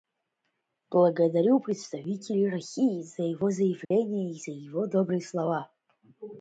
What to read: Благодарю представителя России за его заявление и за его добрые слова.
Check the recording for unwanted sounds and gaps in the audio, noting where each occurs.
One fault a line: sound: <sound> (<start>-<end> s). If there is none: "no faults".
sound: dropout (3.8-3.9 s)